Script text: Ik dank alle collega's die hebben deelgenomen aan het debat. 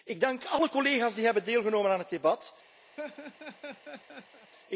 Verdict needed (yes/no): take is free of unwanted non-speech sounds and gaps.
no